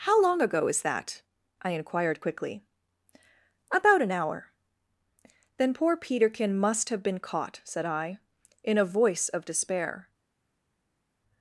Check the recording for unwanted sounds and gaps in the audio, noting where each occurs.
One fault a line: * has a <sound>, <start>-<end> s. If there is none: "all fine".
all fine